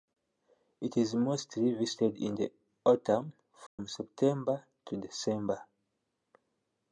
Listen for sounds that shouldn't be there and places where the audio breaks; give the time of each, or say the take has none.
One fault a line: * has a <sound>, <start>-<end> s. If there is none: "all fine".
* has a dropout, 3.7-3.8 s